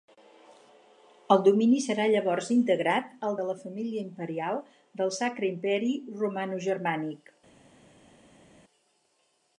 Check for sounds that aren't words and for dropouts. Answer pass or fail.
pass